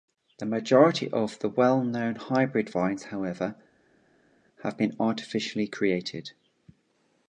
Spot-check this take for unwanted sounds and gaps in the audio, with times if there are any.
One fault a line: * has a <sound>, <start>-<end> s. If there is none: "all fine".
all fine